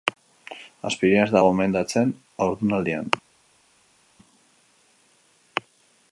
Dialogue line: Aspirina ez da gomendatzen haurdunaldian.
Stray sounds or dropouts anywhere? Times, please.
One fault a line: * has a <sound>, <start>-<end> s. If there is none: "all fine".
all fine